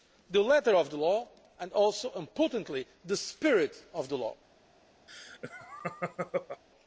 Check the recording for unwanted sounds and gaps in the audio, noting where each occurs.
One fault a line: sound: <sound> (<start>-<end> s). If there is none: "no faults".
sound: laugh (5.1-6.6 s)